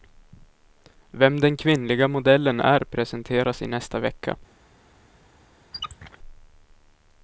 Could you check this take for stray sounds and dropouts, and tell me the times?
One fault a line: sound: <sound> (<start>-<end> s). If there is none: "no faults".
sound: squeak (5.7-6.2 s)